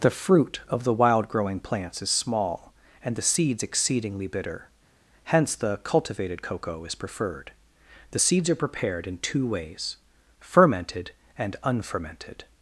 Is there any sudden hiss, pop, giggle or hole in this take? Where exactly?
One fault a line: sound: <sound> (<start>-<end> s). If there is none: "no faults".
no faults